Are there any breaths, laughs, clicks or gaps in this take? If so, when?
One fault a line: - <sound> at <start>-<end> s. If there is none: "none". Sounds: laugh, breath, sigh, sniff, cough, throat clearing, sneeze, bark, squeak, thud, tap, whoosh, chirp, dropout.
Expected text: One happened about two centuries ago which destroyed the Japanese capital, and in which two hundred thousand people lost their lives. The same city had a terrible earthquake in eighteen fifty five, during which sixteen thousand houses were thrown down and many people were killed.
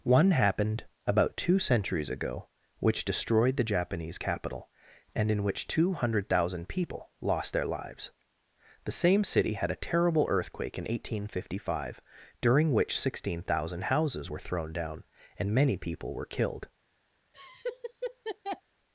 - laugh at 17.3-18.6 s